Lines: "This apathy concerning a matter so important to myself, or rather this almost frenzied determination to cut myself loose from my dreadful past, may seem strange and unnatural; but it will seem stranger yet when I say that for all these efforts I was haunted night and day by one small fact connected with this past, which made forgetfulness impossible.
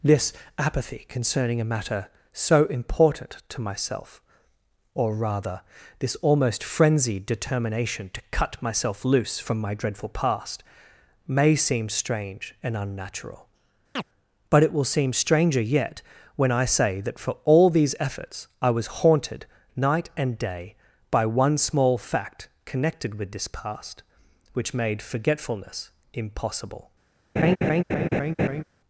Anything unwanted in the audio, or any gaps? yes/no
yes